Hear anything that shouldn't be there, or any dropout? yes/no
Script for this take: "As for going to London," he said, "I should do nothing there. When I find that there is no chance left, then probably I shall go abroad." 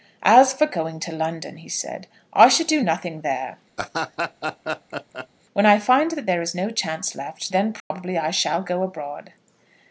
yes